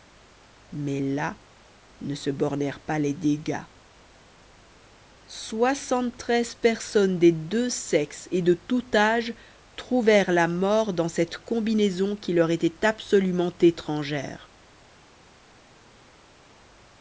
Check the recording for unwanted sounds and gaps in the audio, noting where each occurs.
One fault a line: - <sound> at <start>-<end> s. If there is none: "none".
none